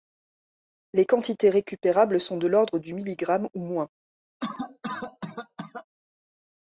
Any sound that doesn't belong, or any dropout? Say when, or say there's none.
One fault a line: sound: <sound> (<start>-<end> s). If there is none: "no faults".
sound: cough (4.4-5.9 s)